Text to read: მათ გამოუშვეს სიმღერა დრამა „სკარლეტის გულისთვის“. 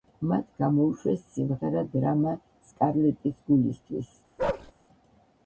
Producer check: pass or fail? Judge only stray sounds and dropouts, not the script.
fail